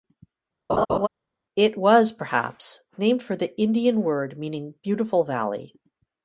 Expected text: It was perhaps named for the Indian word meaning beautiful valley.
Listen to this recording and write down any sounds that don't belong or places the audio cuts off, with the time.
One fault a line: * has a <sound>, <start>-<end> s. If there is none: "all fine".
* has a laugh, 0.7-1.1 s